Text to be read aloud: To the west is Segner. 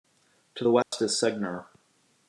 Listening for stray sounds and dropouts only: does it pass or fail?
fail